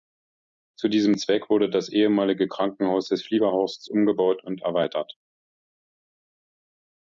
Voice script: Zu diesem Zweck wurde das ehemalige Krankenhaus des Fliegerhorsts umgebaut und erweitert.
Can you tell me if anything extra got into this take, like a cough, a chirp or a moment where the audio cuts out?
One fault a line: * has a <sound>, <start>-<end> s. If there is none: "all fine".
all fine